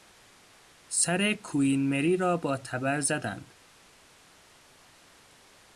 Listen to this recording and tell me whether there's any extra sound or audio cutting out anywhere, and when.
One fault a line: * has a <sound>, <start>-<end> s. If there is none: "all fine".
all fine